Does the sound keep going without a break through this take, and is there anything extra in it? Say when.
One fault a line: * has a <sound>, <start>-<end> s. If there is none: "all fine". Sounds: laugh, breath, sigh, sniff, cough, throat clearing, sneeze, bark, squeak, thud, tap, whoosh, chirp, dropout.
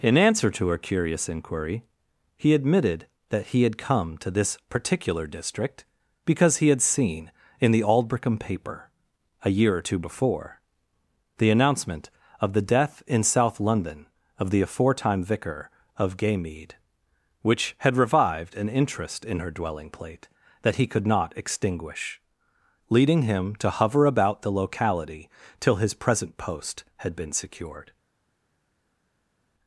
all fine